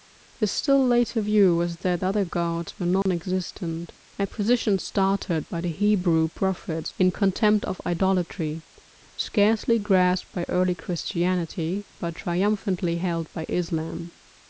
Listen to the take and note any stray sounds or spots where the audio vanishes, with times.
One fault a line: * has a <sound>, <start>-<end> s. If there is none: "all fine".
* has a dropout, 3.0-3.1 s